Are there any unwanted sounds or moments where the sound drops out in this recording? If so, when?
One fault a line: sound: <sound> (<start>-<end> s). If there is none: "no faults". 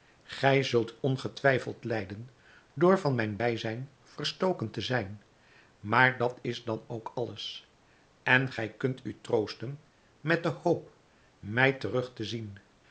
no faults